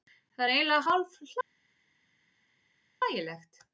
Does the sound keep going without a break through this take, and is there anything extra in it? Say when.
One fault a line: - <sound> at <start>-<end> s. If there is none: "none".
none